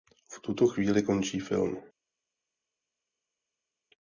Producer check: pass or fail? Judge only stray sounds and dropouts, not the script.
pass